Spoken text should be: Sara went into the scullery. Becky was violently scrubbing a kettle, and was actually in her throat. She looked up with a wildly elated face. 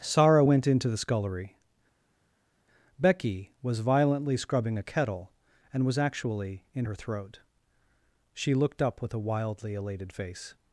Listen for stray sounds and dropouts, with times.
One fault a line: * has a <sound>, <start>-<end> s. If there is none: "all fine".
all fine